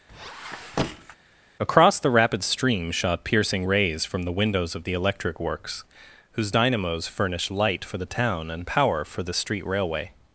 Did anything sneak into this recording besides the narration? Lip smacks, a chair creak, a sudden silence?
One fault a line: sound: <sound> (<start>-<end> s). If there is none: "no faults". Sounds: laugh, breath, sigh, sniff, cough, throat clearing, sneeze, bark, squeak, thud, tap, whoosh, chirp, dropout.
sound: squeak (0.1-1.2 s)